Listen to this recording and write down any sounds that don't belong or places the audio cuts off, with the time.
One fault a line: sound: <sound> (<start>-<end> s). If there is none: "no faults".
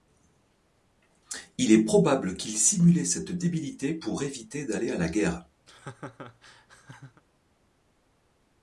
sound: laugh (5.7-7.2 s)